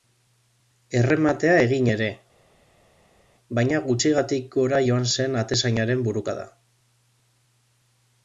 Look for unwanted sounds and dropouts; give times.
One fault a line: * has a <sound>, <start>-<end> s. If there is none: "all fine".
all fine